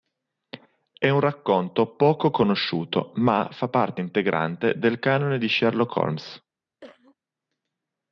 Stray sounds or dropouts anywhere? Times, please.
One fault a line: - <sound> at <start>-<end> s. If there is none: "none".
- cough at 6.8-7.2 s